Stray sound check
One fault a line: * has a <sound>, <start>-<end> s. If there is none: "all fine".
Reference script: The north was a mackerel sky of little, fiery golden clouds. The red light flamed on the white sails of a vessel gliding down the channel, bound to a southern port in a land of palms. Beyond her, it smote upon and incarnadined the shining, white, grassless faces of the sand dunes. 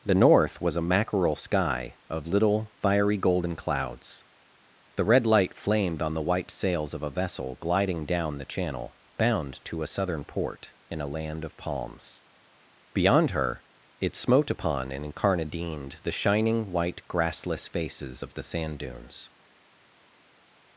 all fine